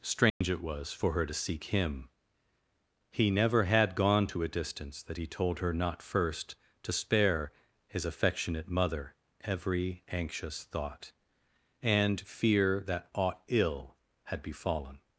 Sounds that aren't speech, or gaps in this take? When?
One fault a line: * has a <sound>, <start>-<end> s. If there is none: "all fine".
* has a dropout, 0.3-0.4 s